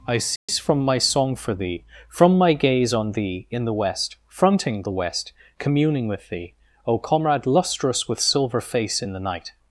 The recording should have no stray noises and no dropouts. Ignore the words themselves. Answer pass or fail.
fail